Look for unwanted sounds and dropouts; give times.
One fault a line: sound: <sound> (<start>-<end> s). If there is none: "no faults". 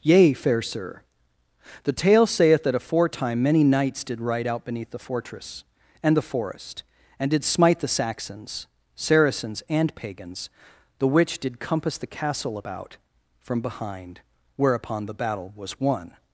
no faults